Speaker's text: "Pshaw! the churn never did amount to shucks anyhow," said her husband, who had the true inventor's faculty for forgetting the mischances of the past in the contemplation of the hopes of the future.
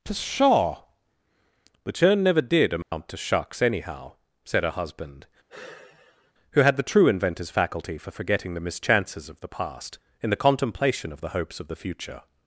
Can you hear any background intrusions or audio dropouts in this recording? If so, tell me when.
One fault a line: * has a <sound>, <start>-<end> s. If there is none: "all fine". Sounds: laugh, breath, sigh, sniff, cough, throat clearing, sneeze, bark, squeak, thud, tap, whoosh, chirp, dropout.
* has a dropout, 2.8-2.9 s
* has a sigh, 5.5-6.3 s